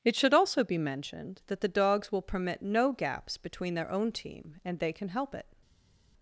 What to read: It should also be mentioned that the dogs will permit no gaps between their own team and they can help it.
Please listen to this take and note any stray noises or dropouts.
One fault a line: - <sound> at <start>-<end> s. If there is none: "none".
none